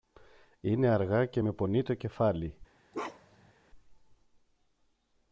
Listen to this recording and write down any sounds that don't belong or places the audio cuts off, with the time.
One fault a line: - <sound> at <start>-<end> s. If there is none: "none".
- bark at 2.9-3.5 s